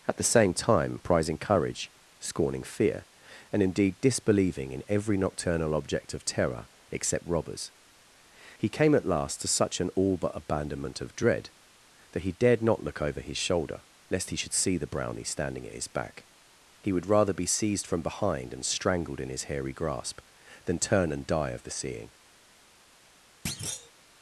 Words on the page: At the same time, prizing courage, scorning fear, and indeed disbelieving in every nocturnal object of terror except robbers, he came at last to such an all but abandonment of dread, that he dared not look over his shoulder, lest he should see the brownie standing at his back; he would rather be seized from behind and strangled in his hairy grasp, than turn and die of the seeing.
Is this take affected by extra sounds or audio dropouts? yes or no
yes